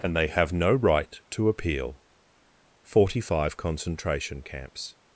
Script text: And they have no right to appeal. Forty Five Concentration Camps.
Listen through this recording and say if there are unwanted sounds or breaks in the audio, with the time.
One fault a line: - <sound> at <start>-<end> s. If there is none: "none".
none